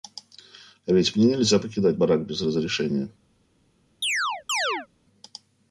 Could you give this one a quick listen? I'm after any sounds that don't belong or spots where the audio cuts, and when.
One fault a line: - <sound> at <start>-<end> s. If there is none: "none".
- chirp at 4.0-4.9 s